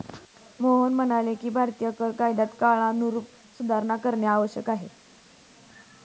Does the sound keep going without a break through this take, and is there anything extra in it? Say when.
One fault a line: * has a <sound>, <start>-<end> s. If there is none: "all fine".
all fine